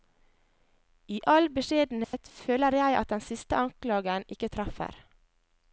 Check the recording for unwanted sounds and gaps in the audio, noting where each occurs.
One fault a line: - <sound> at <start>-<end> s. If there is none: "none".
- dropout at 2.0-2.1 s